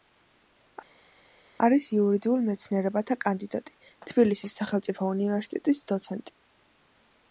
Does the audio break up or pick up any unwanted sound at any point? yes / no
no